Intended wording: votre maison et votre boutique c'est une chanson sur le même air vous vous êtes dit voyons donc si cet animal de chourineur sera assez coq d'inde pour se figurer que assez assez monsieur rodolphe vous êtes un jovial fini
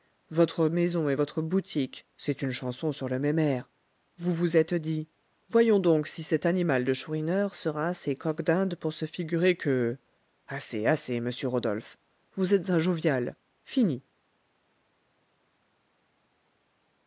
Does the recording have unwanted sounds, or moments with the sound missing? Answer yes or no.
no